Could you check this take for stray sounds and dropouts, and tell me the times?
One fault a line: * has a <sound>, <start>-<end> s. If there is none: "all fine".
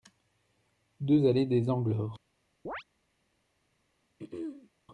* has a chirp, 2.7-2.8 s
* has a throat clearing, 4.2-4.7 s